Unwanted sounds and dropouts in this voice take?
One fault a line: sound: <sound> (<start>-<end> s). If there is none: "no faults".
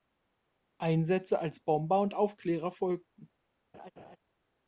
sound: laugh (3.7-4.2 s)